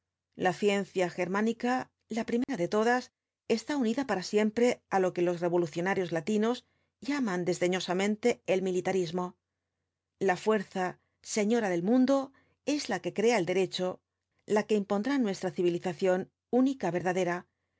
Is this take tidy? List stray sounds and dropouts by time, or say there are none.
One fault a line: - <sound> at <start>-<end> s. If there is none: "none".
- dropout at 2.4-2.5 s